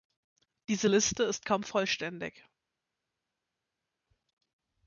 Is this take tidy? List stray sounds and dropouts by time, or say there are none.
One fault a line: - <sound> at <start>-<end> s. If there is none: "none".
none